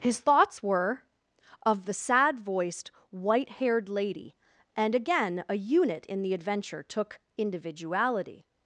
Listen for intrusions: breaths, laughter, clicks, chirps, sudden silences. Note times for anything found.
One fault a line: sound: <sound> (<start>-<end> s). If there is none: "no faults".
no faults